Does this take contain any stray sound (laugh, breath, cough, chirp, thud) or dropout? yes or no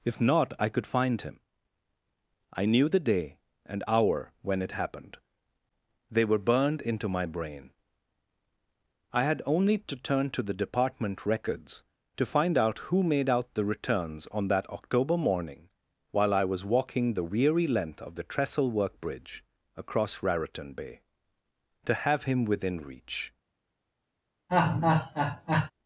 yes